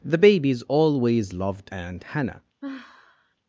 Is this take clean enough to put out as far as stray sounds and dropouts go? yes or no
no